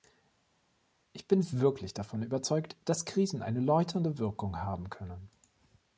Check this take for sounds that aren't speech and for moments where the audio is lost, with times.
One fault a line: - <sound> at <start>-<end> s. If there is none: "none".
none